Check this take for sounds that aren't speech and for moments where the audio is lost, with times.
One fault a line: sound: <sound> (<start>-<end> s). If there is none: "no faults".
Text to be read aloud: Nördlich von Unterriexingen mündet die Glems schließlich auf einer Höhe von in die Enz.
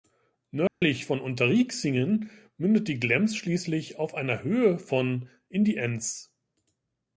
sound: dropout (0.7-0.8 s)